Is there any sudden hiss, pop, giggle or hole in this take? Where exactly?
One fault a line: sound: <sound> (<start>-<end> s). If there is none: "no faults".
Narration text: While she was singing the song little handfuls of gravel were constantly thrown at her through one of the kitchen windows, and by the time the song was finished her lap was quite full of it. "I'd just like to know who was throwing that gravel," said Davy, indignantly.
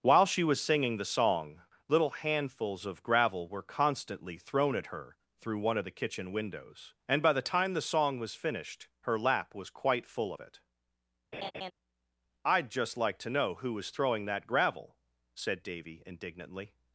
sound: laugh (11.3-11.7 s)